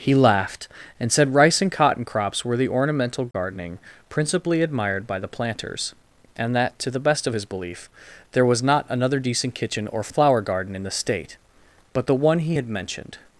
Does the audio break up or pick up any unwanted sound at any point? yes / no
yes